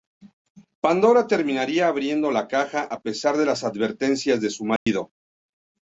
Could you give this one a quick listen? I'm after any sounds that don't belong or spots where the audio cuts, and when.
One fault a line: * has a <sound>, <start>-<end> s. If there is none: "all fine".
* has a dropout, 4.8-4.9 s